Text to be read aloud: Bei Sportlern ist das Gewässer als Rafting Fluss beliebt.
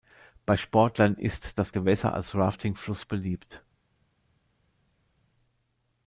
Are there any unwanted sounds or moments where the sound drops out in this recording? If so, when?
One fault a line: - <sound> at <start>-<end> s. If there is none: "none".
none